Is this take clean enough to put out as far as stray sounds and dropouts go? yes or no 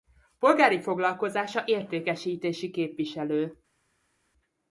yes